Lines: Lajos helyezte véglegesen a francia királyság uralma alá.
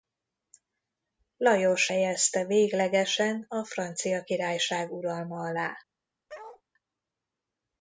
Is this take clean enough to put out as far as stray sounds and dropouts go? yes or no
no